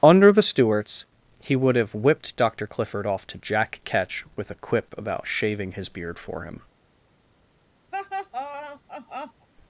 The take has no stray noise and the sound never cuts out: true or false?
false